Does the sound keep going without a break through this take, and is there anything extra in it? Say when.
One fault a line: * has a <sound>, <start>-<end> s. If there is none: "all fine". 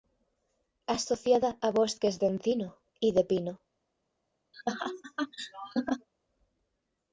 * has a laugh, 4.5-6.1 s